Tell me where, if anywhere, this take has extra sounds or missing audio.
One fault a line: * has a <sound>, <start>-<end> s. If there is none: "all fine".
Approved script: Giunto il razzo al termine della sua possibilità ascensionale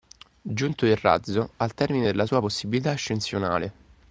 all fine